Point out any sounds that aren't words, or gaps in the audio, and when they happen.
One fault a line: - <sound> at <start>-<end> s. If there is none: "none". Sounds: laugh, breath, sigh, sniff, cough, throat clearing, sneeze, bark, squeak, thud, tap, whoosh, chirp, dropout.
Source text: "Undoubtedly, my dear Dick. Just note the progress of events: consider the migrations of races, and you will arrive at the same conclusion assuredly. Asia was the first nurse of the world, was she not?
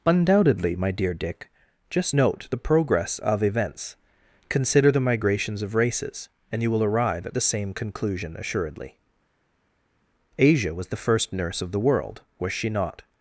none